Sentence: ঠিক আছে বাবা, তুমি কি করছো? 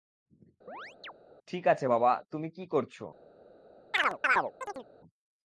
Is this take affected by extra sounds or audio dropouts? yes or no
yes